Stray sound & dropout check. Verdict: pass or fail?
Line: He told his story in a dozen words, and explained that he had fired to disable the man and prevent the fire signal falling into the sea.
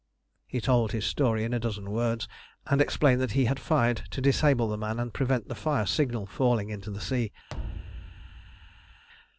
fail